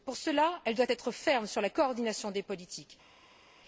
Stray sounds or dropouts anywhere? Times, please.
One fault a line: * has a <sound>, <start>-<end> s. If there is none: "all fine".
all fine